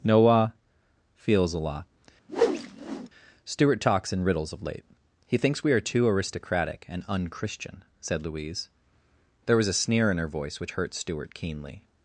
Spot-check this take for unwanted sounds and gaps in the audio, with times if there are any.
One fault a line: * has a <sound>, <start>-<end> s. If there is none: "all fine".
* has a whoosh, 2.3-3.1 s